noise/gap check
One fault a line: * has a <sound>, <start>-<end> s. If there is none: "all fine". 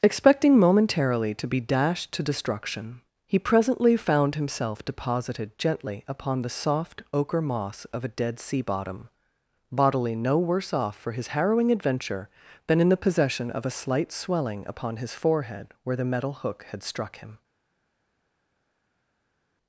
all fine